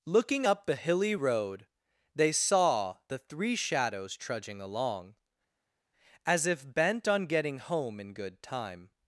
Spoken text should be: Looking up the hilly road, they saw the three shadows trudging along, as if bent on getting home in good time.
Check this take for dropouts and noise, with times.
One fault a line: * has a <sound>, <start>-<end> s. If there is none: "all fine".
all fine